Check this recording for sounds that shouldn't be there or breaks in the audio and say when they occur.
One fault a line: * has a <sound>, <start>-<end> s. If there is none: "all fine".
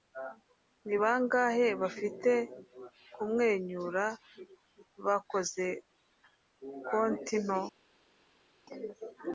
all fine